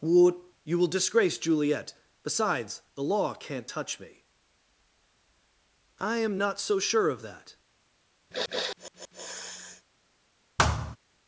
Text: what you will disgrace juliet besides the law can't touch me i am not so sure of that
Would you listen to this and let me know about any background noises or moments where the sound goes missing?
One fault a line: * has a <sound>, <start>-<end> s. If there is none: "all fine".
* has a sniff, 8.3-9.8 s
* has a thud, 10.6-11.0 s